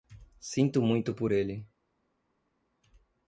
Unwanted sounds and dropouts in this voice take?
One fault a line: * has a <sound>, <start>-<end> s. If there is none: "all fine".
all fine